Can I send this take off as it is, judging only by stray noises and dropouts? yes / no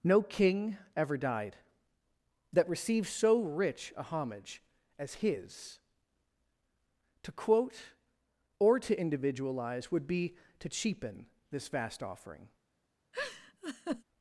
no